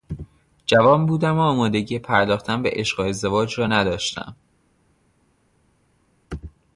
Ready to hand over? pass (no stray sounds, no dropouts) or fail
pass